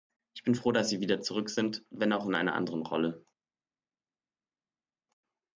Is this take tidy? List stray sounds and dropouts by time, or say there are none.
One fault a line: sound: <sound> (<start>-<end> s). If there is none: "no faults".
no faults